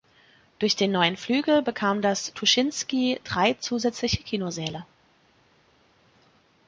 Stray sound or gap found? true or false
false